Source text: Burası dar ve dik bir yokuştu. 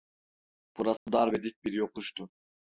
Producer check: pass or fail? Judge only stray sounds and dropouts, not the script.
fail